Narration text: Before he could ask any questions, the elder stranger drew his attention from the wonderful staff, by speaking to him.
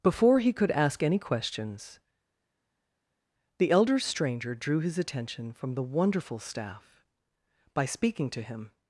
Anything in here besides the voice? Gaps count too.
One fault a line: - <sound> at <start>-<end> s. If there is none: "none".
none